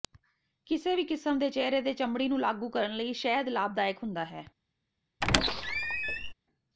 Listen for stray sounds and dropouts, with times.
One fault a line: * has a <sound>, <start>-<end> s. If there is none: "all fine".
* has a squeak, 5.2-6.3 s